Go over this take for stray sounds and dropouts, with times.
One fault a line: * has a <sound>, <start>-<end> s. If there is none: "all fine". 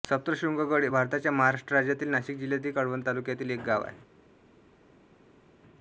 all fine